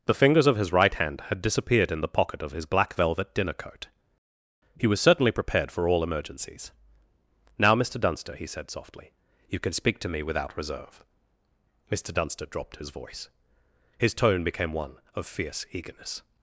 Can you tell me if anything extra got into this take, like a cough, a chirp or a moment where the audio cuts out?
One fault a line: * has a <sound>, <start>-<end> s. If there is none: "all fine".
all fine